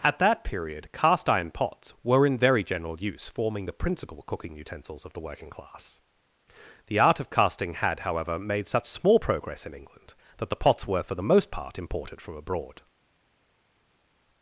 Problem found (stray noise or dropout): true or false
false